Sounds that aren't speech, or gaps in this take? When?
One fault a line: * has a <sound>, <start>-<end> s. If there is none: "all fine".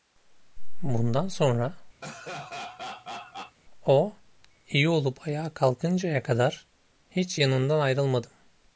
* has a laugh, 2.0-3.6 s